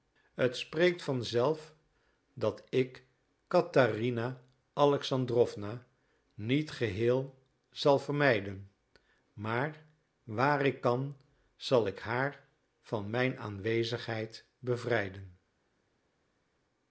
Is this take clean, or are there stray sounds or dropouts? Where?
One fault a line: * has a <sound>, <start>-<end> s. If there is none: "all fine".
all fine